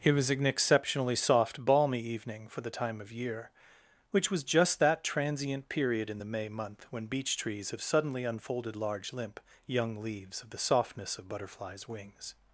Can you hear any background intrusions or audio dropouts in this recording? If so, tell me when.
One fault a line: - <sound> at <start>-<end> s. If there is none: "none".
none